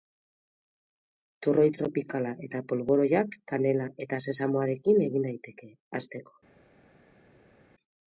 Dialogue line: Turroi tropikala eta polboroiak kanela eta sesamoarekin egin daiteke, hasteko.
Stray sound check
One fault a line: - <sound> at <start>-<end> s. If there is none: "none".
none